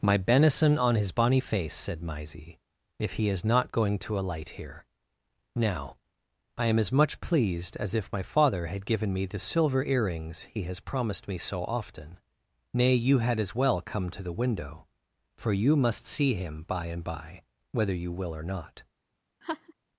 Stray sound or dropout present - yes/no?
yes